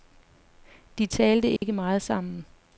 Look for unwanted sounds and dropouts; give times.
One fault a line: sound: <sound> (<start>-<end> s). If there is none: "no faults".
sound: dropout (1.6-1.6 s)